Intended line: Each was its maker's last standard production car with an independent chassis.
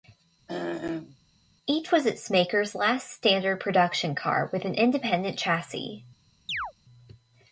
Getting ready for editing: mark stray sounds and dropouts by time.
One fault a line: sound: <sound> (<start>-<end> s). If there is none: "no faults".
sound: throat clearing (0.5-1.2 s)
sound: chirp (6.5-6.7 s)